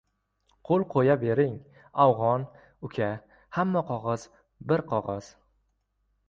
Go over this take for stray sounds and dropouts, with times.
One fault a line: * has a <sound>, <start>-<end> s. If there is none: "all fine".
all fine